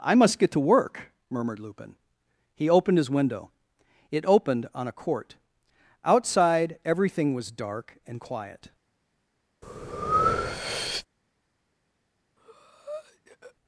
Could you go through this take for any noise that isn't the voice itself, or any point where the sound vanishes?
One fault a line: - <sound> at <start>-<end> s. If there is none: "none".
- breath at 9.6-11.1 s
- breath at 12.4-13.5 s